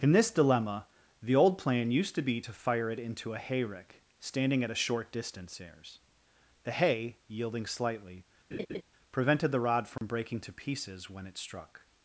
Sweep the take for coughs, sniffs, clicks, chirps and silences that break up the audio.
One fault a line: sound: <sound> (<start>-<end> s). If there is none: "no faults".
sound: laugh (8.5-8.8 s)
sound: dropout (10.0-10.0 s)